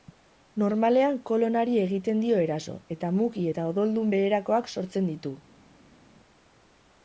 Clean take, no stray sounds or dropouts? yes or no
yes